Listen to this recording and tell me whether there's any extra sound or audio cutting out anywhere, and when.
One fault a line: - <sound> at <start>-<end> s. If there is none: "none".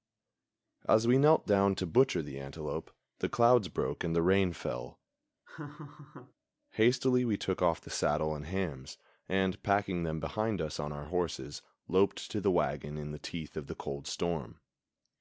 - laugh at 5.5-6.3 s